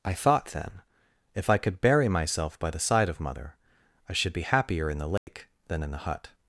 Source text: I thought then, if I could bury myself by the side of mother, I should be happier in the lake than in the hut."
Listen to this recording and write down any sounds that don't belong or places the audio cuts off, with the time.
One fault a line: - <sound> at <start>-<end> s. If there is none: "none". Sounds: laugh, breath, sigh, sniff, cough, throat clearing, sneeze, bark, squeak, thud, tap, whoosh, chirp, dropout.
- dropout at 5.2-5.3 s